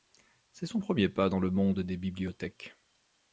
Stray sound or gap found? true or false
false